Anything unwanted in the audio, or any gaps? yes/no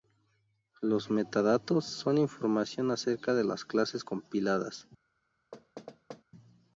yes